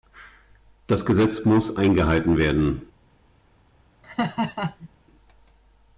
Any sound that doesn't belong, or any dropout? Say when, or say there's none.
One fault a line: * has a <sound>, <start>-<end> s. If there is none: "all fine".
* has a laugh, 4.0-4.9 s